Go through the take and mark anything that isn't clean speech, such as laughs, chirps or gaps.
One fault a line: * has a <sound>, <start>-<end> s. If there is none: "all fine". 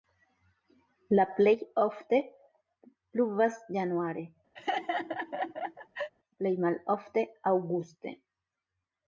* has a laugh, 4.6-6.1 s